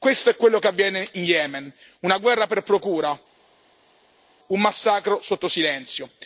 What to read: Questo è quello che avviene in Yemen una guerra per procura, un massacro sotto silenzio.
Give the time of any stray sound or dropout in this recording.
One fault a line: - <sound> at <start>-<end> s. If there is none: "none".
none